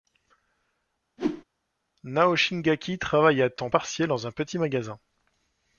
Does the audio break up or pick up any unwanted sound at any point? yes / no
yes